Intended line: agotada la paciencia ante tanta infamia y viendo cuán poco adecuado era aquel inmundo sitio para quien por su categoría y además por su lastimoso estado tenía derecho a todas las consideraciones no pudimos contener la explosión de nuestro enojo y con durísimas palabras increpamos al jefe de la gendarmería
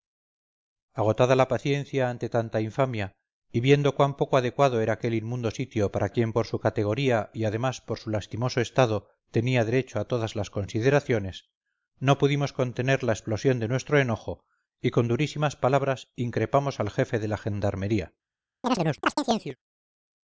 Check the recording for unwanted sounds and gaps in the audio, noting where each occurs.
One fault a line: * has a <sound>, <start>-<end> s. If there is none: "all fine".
* has a chirp, 18.6-19.6 s